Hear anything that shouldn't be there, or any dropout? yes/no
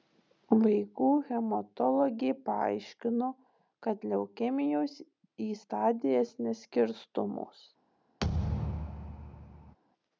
yes